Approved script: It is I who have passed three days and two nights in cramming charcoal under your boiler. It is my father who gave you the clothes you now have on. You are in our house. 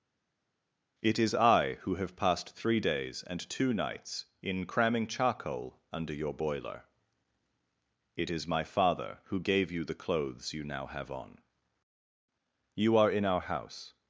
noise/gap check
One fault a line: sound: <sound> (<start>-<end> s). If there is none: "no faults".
no faults